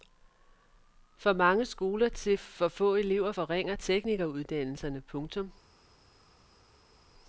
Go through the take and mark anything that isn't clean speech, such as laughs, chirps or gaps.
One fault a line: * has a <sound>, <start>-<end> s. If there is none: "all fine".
all fine